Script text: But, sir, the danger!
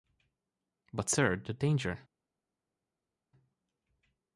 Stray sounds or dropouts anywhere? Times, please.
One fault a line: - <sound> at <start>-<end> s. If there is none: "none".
none